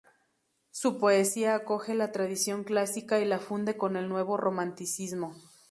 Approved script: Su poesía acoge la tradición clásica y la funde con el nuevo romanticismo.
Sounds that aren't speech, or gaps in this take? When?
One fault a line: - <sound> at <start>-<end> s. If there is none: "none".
none